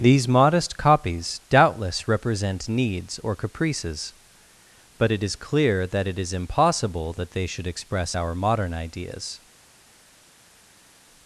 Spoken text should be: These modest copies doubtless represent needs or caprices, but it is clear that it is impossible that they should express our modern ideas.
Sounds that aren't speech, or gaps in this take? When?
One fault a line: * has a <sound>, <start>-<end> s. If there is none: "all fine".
all fine